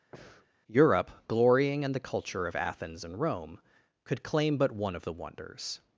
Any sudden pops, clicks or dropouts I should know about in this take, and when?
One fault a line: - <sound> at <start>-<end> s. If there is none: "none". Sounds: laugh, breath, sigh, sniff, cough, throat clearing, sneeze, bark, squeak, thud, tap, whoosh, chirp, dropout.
- breath at 0.1-0.5 s